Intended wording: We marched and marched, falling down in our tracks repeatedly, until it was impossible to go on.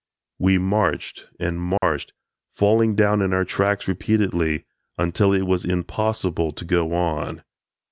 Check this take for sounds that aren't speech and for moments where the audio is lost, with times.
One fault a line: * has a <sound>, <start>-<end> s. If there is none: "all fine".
* has a dropout, 1.8-1.8 s